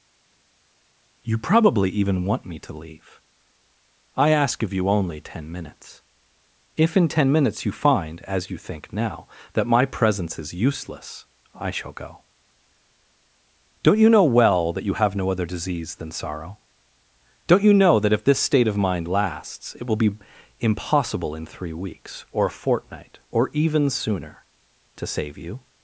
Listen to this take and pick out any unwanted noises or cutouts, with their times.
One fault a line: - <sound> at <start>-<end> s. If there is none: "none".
none